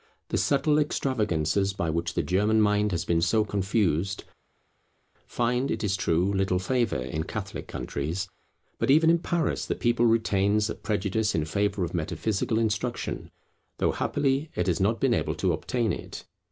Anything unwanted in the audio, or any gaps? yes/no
no